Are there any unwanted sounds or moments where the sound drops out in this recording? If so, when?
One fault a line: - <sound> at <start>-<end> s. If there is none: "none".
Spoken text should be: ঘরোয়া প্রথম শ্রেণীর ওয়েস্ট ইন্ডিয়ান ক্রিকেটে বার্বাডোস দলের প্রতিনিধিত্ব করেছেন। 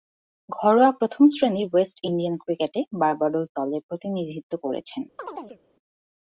- chirp at 5.2-5.6 s